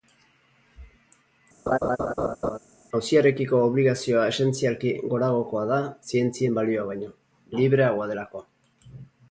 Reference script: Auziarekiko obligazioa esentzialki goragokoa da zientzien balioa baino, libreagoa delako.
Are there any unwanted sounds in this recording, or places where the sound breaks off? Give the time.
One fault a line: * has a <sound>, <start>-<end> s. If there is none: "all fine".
* has a laugh, 1.7-2.6 s